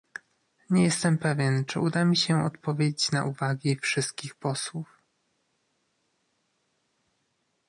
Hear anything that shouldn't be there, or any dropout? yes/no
no